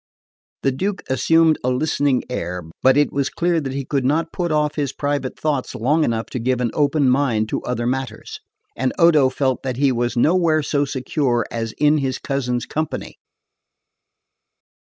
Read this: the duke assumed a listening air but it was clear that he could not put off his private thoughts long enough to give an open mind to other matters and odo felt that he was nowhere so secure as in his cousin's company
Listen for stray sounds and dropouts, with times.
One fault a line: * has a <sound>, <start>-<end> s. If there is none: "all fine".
all fine